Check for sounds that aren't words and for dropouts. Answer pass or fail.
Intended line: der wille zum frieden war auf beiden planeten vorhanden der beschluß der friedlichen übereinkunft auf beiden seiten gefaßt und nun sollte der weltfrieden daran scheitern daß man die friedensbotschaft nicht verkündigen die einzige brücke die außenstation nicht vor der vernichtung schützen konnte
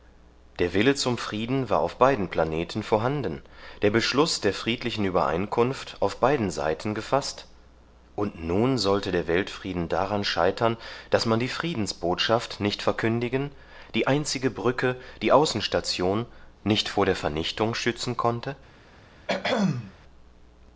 fail